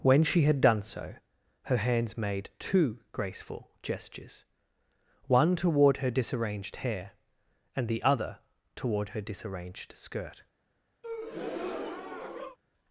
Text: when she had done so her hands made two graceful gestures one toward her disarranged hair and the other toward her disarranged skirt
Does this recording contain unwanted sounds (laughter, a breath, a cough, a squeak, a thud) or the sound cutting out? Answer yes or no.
yes